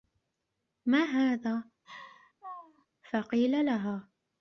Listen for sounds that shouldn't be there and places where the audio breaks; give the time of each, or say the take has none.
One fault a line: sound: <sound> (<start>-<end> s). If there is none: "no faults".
sound: laugh (1.8-2.9 s)